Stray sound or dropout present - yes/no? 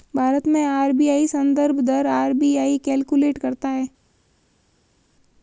no